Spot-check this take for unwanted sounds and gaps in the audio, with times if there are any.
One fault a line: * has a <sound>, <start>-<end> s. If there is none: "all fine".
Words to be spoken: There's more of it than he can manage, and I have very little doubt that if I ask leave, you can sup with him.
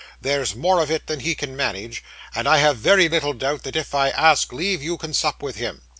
all fine